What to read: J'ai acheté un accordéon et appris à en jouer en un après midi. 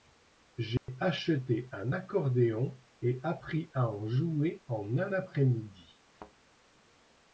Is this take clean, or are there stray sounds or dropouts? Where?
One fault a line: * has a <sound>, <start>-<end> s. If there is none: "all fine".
* has a dropout, 0.8-0.9 s
* has a thud, 6.1-6.3 s